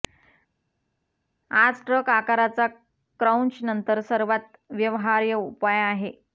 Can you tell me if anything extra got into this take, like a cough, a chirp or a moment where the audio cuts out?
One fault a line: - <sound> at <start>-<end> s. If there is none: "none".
none